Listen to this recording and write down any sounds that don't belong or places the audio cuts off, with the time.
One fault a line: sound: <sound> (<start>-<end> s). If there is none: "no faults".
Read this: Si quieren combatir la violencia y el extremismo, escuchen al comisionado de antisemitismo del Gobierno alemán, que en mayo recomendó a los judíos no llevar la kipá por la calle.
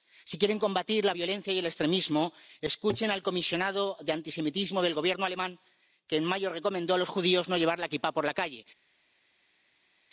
no faults